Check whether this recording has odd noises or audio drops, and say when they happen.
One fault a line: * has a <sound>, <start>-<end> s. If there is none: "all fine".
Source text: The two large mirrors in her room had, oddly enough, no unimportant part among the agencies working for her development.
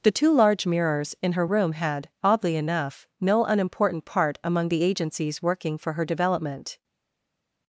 all fine